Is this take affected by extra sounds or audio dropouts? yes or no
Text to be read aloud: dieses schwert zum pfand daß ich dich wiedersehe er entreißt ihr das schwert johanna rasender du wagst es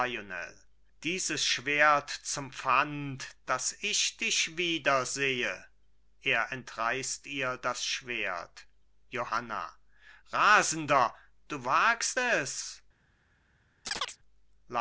yes